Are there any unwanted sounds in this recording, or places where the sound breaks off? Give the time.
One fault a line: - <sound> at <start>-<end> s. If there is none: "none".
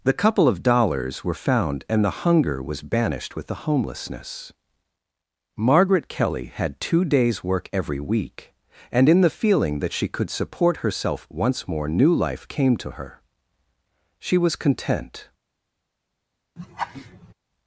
- laugh at 16.6-17.3 s